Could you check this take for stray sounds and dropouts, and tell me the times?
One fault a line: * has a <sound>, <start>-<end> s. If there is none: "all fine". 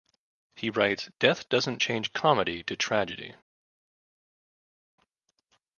all fine